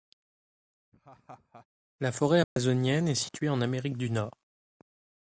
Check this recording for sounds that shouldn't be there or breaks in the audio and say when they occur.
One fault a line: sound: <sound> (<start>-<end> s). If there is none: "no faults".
sound: laugh (0.9-1.7 s)
sound: dropout (2.4-2.6 s)